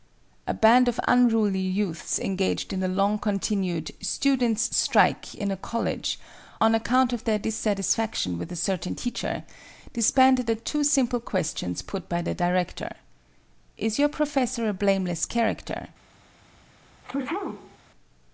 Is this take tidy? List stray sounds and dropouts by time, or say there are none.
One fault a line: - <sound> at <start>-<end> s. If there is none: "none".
- sneeze at 17.0-17.8 s